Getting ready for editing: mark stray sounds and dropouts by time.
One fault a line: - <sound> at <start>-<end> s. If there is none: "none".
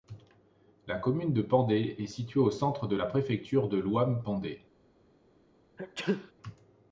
- sneeze at 5.8-6.3 s